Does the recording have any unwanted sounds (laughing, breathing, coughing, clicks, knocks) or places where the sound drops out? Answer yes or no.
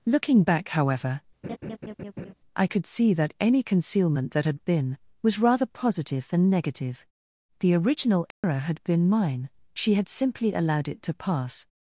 yes